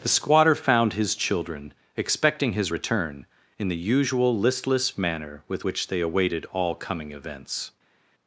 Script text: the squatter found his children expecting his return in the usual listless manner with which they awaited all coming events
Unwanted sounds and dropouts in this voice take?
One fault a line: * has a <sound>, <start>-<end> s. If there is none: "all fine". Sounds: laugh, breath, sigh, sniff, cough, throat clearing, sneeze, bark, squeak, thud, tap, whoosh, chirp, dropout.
all fine